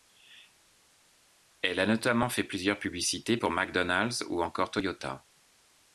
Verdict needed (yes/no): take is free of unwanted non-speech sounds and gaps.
yes